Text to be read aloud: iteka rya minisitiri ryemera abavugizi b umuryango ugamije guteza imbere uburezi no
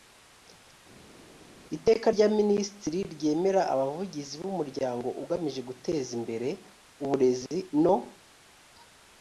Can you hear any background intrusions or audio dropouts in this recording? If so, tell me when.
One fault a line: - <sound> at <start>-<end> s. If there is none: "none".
none